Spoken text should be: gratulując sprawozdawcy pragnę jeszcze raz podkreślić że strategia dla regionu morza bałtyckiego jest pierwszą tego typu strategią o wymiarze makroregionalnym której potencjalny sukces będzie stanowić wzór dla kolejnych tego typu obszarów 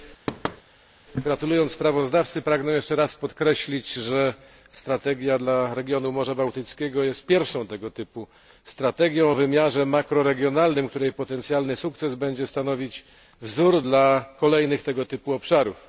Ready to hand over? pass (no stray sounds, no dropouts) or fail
fail